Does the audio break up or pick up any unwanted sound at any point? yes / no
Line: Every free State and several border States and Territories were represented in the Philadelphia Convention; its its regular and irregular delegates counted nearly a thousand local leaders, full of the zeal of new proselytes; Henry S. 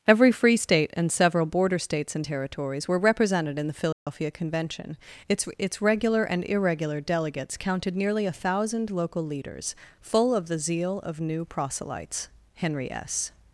yes